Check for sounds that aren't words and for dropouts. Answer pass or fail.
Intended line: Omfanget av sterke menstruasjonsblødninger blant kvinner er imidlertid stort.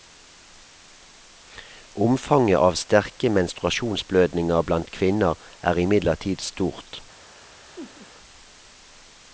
fail